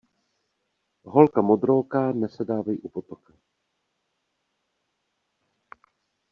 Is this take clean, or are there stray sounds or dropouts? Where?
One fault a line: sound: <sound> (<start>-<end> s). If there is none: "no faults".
no faults